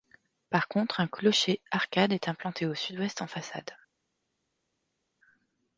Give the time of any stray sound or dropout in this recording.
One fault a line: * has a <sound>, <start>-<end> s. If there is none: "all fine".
all fine